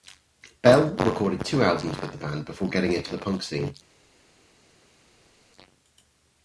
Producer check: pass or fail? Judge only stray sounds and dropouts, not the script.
pass